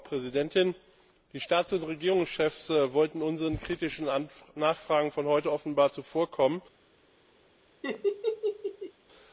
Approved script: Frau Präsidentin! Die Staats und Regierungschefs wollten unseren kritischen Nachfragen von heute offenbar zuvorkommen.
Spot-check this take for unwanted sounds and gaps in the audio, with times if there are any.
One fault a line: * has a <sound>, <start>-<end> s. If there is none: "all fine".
* has a laugh, 7.8-8.9 s